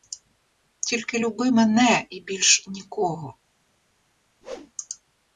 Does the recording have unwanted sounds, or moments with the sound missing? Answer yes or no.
yes